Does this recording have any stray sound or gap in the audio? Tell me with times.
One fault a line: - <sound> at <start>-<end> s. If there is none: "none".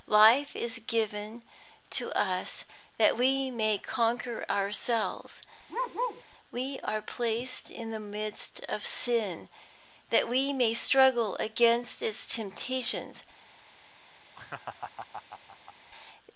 - bark at 5.7-6.2 s
- laugh at 14.3-15.7 s